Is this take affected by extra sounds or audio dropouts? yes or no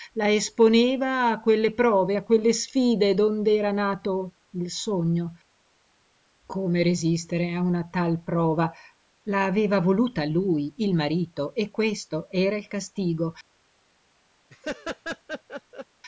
yes